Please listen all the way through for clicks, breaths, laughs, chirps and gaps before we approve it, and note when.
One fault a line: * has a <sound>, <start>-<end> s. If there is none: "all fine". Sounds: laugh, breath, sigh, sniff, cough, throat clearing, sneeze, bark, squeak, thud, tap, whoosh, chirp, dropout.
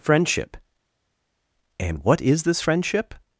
all fine